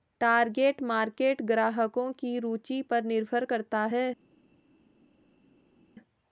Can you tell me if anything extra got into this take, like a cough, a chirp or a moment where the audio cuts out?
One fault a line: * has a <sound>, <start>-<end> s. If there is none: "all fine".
all fine